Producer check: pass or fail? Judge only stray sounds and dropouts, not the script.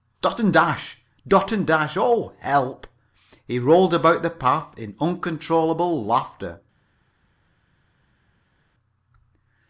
pass